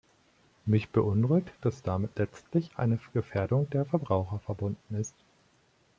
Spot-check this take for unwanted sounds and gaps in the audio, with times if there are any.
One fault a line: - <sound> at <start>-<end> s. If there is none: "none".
none